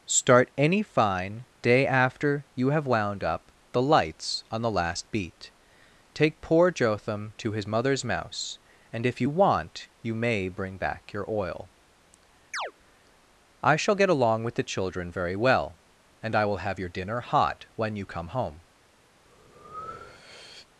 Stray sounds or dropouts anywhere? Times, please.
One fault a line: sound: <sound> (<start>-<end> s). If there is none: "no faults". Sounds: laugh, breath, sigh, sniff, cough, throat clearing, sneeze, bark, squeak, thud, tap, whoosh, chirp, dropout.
sound: chirp (12.5-12.7 s)
sound: breath (19.2-20.7 s)